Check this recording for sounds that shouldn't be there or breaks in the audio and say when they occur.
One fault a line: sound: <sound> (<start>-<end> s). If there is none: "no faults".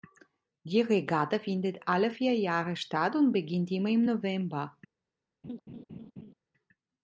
sound: laugh (5.4-6.3 s)